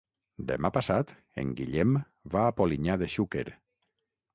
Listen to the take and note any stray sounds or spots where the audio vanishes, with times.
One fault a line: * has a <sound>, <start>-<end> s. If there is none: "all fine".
all fine